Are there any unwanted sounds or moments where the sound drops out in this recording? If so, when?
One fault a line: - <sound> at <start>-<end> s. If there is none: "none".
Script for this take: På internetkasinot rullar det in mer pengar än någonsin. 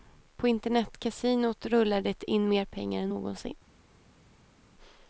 none